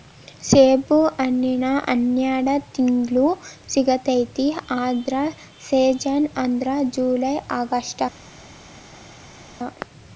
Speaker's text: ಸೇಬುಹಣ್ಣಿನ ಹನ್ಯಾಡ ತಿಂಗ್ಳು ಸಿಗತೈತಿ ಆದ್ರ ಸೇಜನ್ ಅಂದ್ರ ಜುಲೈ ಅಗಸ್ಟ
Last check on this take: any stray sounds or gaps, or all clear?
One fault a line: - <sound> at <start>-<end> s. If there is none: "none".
none